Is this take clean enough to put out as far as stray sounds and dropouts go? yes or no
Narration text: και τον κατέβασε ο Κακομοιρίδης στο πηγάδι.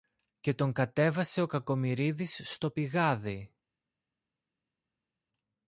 yes